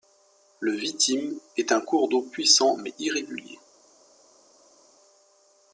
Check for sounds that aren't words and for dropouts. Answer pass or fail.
pass